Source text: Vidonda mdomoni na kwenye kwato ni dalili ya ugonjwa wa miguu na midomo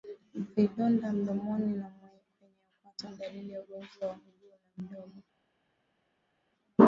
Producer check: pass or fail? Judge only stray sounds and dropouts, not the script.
pass